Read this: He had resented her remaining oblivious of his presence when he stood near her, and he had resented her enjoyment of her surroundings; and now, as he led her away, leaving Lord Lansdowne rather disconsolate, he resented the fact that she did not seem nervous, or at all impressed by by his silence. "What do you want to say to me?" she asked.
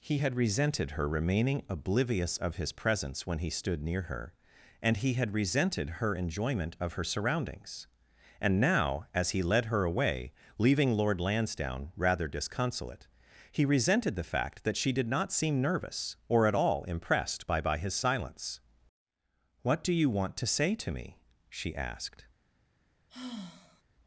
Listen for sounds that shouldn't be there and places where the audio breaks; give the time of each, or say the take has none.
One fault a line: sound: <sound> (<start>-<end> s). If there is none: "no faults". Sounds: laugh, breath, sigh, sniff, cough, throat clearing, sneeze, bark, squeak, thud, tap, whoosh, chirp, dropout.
sound: sigh (23.1-23.8 s)